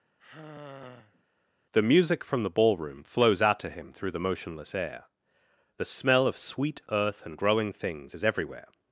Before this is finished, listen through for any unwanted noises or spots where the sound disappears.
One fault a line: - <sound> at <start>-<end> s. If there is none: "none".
- sigh at 0.2-1.2 s